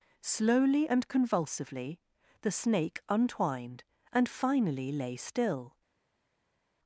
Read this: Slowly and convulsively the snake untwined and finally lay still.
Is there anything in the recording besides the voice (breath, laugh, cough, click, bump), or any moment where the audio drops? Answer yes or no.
no